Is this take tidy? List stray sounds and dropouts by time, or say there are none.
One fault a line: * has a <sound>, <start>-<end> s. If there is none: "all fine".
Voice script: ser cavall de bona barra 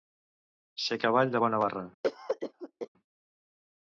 * has a cough, 2.0-2.9 s